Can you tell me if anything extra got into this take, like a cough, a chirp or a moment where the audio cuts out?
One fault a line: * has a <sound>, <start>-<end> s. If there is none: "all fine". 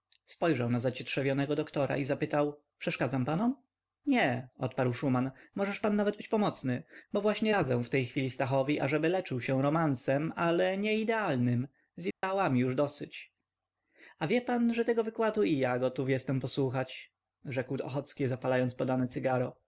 * has a dropout, 12.1-12.2 s